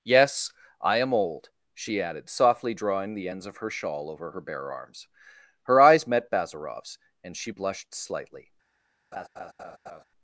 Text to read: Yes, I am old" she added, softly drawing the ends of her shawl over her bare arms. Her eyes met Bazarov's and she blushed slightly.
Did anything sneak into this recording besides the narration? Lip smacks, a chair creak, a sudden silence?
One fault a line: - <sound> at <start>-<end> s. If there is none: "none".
- laugh at 9.1-10.0 s